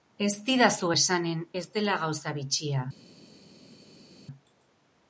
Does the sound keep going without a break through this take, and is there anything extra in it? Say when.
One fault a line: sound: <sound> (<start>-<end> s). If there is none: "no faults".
no faults